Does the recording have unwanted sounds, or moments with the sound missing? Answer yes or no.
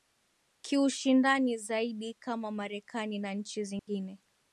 yes